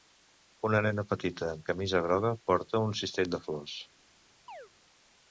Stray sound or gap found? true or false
true